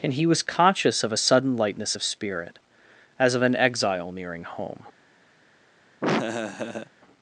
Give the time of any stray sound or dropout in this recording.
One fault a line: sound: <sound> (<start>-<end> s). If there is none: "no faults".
sound: laugh (6.0-6.9 s)